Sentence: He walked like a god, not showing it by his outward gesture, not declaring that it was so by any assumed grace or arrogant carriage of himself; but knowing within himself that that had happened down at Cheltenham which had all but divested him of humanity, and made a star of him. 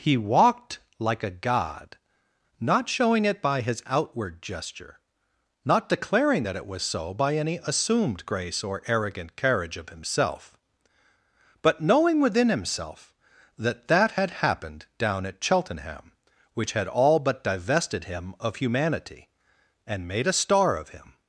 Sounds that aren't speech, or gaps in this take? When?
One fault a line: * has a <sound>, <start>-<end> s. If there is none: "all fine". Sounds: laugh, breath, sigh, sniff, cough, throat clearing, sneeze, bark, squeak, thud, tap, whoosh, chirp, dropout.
all fine